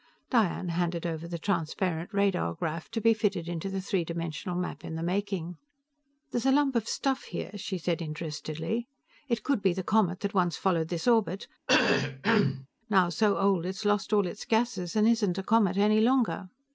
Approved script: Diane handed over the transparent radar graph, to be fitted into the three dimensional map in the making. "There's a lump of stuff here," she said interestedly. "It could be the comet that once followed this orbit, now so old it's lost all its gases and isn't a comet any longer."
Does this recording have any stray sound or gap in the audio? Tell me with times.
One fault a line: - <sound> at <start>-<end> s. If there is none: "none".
- cough at 11.7-12.7 s